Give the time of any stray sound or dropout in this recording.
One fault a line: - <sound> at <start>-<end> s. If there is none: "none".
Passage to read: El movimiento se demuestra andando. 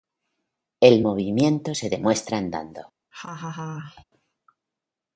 - laugh at 3.1-4.0 s